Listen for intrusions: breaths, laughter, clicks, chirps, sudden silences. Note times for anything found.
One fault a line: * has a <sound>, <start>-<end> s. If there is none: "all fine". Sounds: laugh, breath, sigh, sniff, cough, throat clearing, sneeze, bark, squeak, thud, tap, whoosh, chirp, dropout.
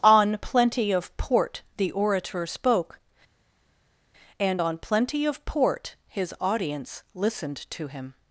all fine